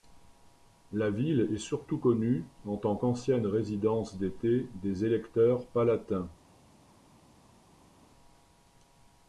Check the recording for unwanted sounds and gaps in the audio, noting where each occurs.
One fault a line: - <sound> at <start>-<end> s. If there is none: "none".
none